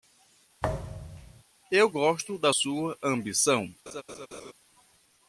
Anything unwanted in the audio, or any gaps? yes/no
yes